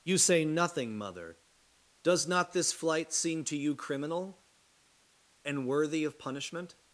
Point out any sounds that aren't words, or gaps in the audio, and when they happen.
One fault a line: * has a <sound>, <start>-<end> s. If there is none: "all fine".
all fine